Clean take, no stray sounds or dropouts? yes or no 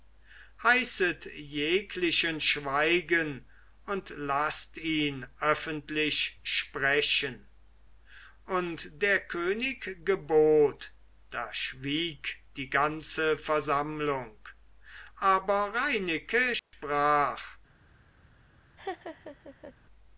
no